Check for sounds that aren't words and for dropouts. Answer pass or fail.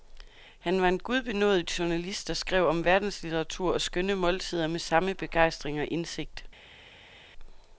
pass